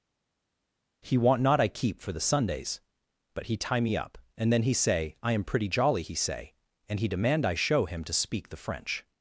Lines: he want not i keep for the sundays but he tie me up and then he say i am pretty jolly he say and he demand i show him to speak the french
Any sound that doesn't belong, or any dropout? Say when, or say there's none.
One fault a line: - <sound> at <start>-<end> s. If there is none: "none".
none